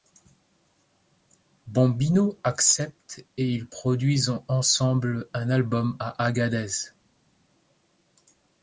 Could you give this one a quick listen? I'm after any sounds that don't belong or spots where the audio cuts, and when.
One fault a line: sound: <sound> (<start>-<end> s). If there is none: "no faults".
no faults